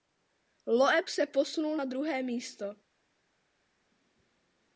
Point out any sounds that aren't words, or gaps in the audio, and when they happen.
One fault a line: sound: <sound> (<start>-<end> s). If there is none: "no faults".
no faults